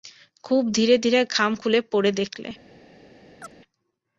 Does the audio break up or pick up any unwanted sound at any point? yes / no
yes